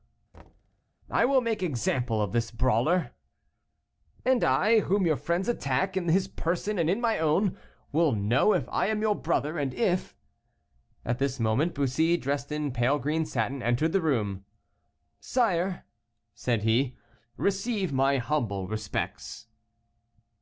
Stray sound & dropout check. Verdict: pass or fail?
fail